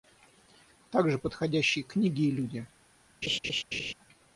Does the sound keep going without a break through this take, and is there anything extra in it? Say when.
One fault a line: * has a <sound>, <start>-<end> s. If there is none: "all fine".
* has a laugh, 3.2-3.9 s